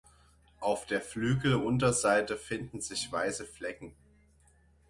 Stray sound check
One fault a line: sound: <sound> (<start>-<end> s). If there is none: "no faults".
no faults